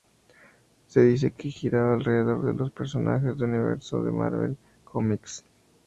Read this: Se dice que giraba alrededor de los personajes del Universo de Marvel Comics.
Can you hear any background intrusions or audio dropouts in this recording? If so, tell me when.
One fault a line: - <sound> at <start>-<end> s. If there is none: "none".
none